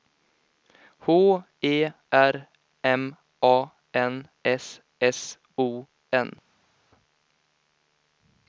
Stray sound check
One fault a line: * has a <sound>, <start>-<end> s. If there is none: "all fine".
all fine